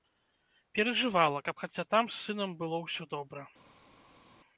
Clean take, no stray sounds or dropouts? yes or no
yes